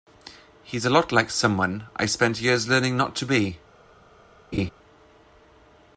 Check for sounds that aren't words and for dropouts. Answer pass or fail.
fail